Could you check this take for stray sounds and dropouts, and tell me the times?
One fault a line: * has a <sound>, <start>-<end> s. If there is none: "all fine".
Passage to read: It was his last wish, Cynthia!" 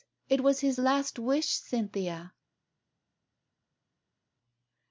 all fine